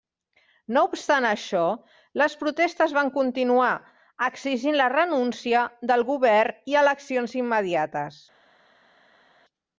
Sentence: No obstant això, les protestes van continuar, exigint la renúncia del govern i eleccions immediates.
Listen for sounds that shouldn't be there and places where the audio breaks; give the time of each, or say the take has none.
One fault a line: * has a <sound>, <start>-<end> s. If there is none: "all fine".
all fine